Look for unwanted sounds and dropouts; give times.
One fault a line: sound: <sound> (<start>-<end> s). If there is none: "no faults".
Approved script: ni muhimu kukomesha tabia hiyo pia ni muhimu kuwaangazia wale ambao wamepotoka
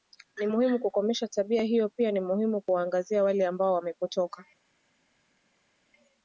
no faults